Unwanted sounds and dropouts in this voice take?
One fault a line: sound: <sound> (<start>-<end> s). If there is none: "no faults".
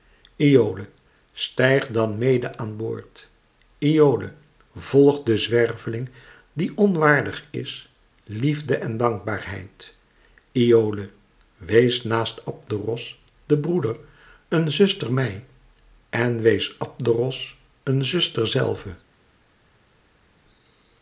no faults